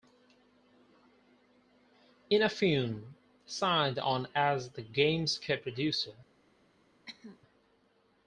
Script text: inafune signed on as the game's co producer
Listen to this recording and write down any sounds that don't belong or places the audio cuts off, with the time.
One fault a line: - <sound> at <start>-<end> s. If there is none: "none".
- cough at 7.1-7.4 s